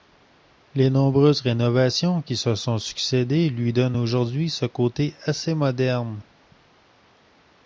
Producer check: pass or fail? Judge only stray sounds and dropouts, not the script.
pass